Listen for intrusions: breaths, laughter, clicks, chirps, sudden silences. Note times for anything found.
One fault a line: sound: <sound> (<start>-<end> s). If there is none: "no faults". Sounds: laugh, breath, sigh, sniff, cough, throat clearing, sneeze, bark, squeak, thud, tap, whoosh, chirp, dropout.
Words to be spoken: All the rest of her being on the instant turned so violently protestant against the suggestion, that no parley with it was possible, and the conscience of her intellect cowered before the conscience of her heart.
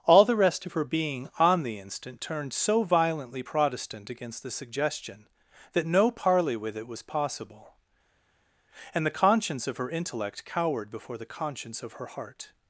no faults